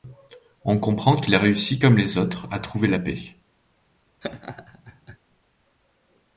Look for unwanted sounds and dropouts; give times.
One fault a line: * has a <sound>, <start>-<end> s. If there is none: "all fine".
* has a laugh, 4.2-5.2 s